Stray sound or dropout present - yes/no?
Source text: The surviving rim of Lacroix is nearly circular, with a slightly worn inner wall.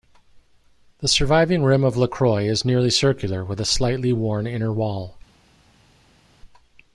no